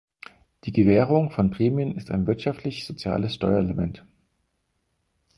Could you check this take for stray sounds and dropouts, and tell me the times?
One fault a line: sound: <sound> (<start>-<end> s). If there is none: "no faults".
no faults